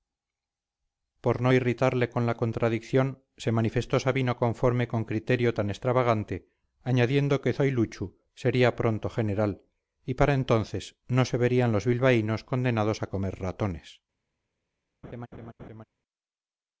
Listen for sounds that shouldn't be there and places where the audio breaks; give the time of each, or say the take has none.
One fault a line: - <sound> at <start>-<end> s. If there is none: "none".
- laugh at 15.0-15.8 s